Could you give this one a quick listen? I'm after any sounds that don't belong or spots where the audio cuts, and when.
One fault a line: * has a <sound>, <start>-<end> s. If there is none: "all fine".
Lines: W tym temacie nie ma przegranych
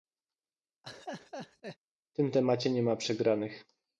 * has a laugh, 0.8-1.8 s